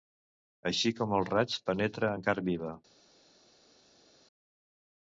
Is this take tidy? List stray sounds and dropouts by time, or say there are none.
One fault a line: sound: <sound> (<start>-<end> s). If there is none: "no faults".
no faults